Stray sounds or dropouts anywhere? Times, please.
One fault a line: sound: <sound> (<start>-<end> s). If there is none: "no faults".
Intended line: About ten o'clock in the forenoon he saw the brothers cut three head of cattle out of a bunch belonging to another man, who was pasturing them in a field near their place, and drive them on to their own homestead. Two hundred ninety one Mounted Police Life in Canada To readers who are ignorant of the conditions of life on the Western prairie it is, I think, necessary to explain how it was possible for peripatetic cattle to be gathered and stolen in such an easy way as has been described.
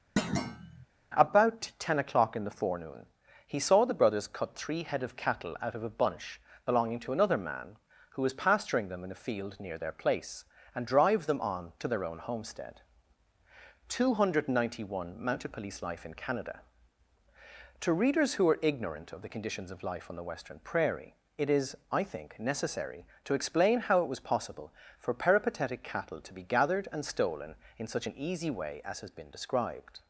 sound: thud (0.2-0.9 s)